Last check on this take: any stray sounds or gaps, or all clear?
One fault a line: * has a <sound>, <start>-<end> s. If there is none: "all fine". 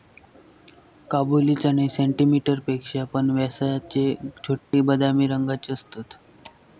* has a dropout, 4.6-4.7 s